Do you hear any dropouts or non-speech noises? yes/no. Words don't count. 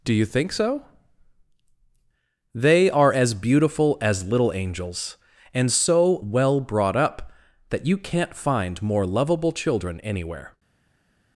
no